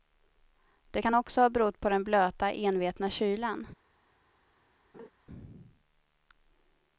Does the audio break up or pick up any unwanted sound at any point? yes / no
yes